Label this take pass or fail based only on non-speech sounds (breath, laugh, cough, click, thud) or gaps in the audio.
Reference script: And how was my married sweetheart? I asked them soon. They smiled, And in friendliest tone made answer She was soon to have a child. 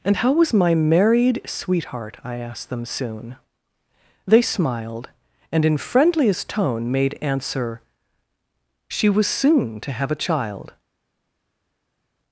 pass